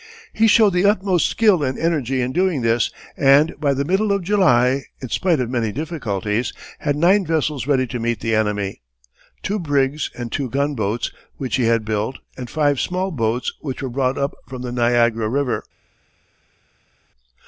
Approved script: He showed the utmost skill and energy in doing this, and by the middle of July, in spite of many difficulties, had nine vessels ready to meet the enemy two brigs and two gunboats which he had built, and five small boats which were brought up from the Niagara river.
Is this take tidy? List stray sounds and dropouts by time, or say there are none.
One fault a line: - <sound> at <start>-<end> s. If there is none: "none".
none